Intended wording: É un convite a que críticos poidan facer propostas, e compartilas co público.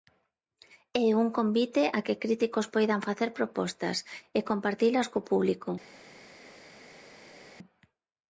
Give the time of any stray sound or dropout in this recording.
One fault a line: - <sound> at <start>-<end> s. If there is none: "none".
none